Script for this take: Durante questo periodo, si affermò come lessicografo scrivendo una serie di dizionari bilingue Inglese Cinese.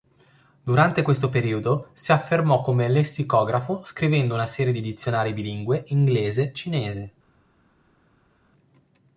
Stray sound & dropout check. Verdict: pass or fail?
pass